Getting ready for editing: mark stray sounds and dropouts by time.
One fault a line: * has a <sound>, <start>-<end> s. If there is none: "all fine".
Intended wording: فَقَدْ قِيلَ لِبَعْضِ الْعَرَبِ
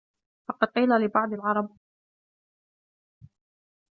all fine